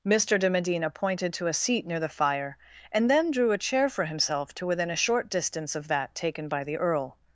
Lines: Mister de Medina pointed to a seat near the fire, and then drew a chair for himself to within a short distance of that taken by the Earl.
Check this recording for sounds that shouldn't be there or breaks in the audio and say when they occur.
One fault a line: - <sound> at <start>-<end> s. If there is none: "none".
none